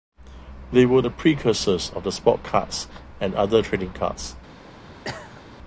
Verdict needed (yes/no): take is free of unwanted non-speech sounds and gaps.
no